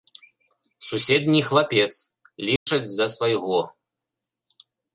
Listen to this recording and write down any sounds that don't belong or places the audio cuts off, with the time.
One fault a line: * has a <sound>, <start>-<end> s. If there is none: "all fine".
* has a dropout, 2.6-2.7 s